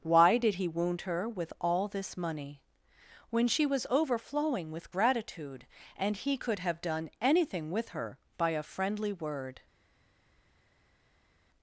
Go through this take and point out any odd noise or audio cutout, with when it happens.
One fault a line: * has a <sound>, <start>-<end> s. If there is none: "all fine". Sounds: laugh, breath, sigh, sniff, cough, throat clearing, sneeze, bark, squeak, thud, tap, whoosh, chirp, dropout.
all fine